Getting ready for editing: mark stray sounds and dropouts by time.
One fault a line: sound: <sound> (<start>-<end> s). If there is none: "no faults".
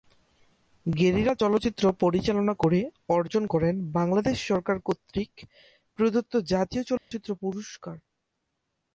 sound: dropout (7.0-7.1 s)